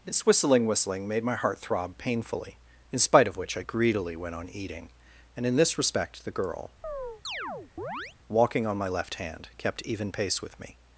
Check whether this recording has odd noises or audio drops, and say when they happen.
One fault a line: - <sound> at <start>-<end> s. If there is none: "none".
- chirp at 6.8-8.2 s